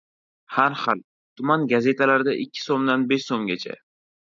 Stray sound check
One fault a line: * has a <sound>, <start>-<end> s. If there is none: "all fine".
all fine